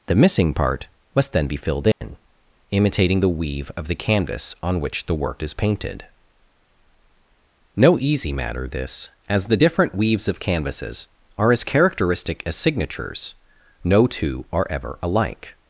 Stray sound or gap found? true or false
true